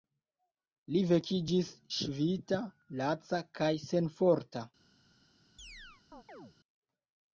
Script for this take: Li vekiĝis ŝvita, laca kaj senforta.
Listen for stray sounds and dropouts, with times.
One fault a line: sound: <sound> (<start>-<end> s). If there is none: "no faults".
sound: chirp (5.6-6.6 s)